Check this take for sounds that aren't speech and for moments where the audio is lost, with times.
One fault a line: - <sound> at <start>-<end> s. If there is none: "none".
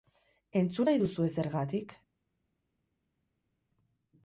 none